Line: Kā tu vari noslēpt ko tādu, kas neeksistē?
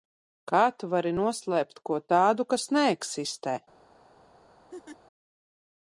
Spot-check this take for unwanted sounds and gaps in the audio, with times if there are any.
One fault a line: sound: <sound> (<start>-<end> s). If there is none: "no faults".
sound: laugh (4.7-5.0 s)